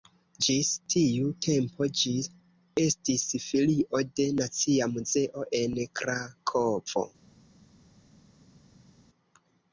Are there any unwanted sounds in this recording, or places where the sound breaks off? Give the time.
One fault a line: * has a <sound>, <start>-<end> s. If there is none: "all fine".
all fine